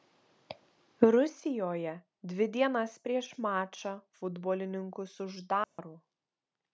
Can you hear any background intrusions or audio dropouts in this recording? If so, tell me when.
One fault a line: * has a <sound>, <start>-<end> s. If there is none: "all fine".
* has a dropout, 5.6-5.8 s